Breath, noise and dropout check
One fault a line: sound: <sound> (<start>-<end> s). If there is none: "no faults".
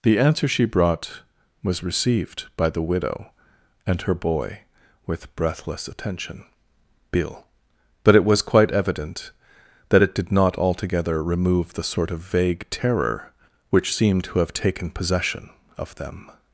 no faults